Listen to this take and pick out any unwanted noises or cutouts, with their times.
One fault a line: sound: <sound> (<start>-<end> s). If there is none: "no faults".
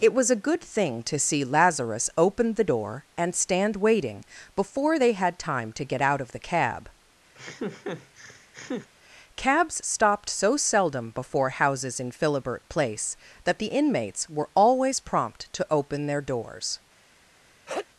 sound: laugh (7.3-8.9 s)
sound: sneeze (17.7-17.9 s)